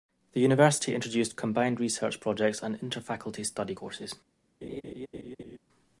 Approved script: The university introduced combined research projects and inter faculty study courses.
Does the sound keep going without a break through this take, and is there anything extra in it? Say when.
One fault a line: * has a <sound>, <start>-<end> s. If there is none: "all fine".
* has a laugh, 4.6-5.6 s